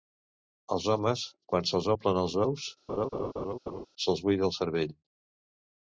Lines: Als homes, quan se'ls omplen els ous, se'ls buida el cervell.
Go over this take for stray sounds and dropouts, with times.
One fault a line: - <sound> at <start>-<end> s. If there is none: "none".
- laugh at 2.9-3.9 s